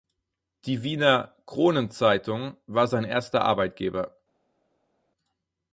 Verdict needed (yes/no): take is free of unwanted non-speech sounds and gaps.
yes